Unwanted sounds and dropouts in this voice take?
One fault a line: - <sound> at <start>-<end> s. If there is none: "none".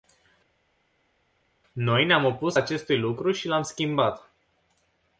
none